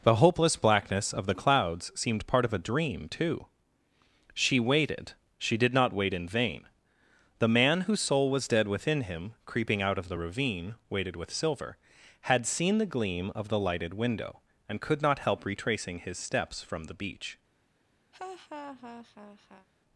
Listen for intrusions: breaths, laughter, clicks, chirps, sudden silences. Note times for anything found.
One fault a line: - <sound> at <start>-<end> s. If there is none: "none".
- laugh at 18.1-19.7 s